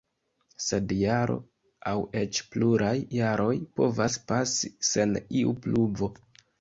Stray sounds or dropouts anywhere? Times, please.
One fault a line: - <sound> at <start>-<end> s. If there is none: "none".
none